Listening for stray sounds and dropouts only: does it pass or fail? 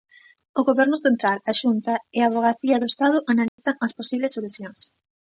fail